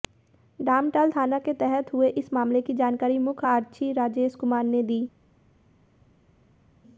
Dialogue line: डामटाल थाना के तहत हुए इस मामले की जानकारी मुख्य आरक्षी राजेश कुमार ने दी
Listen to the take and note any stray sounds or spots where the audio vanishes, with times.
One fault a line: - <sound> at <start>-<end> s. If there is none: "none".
none